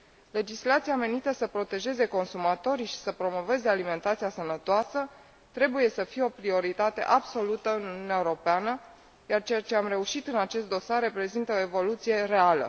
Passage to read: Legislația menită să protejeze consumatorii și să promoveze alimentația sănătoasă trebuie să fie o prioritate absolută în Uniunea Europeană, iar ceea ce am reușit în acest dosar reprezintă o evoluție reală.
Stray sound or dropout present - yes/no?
no